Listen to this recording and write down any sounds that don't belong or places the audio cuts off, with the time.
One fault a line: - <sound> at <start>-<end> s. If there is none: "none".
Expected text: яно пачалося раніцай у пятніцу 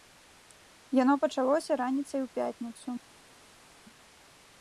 none